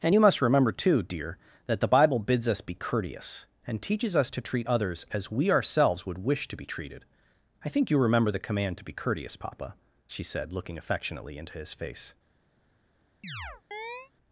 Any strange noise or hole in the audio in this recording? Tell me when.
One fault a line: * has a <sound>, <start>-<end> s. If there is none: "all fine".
* has a chirp, 13.2-14.1 s